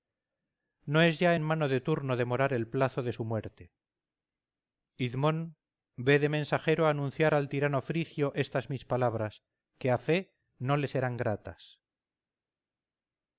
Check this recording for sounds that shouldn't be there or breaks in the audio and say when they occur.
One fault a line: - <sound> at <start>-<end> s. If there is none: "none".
none